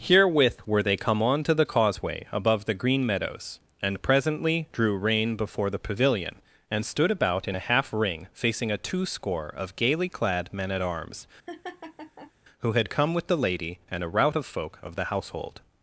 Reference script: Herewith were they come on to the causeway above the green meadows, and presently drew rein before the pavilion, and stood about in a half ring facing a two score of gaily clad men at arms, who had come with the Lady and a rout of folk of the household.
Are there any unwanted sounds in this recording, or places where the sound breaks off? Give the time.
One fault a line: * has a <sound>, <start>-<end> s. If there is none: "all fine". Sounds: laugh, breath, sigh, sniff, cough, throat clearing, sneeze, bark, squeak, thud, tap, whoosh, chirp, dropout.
* has a laugh, 11.5-12.3 s